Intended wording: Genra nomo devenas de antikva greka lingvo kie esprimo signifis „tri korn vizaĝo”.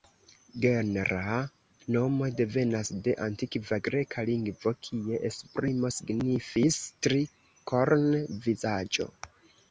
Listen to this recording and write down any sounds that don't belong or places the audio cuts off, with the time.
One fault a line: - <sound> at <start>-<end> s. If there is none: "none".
none